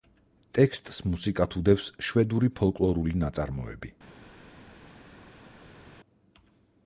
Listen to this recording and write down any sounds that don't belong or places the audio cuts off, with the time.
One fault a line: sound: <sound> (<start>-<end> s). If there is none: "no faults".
no faults